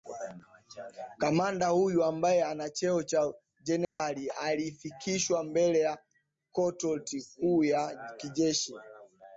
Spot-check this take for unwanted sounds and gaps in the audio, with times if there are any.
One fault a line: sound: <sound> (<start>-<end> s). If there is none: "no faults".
sound: dropout (3.8-4.0 s)